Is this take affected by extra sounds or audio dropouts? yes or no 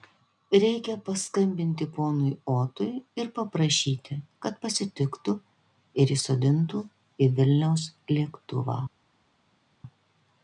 no